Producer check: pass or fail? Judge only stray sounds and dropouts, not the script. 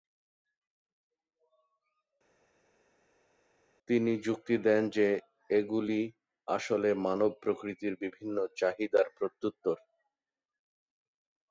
pass